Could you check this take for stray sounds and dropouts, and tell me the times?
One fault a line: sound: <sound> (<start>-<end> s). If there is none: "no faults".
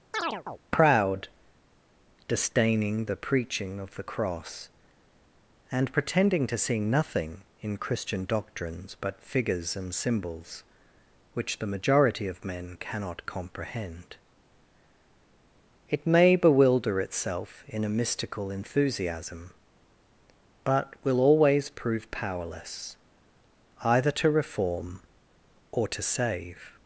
sound: chirp (0.1-0.6 s)